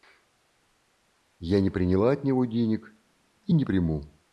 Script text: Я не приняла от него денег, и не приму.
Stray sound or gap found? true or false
false